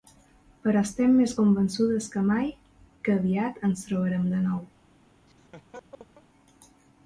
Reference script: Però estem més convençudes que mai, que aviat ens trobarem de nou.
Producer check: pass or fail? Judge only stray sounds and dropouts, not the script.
fail